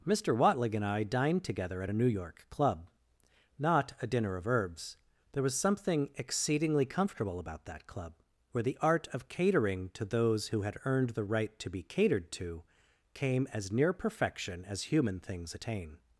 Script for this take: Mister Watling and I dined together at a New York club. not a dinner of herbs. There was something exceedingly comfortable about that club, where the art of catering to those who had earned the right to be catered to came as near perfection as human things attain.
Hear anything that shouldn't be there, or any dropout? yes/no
no